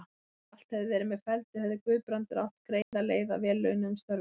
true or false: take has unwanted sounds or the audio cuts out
true